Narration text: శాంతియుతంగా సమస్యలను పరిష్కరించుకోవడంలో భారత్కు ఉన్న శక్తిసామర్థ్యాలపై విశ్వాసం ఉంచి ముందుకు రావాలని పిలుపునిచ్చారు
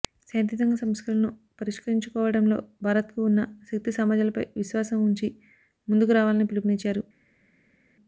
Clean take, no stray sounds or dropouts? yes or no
yes